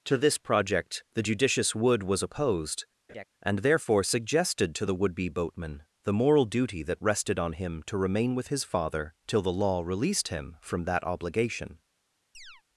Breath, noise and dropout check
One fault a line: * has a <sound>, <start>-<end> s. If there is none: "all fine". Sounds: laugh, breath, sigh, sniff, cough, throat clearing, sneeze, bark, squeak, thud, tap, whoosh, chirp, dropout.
* has a laugh, 3.1-3.3 s
* has a chirp, 12.3-12.6 s